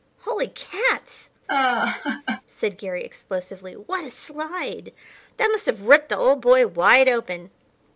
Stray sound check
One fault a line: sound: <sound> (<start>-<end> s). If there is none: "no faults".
sound: laugh (1.5-2.4 s)